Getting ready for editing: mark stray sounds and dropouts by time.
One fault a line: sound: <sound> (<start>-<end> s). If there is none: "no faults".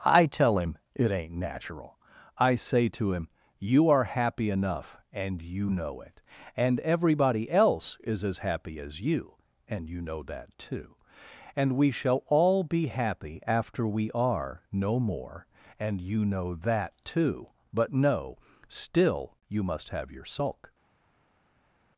no faults